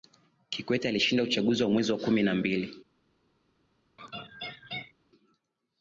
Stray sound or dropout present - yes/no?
yes